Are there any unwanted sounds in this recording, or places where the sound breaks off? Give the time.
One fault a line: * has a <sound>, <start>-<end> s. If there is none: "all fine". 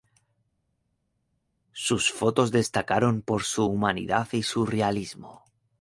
all fine